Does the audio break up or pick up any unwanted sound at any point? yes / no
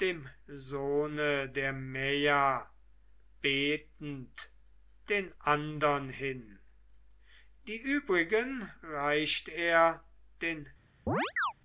yes